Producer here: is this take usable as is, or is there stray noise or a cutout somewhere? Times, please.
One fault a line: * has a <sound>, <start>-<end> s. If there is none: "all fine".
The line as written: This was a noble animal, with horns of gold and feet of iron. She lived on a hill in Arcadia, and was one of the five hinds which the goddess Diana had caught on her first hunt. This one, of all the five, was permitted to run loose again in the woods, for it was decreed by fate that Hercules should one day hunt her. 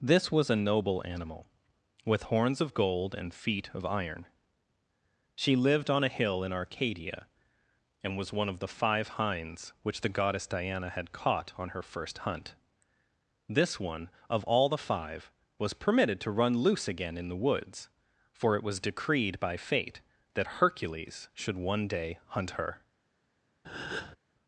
* has a breath, 23.6-24.2 s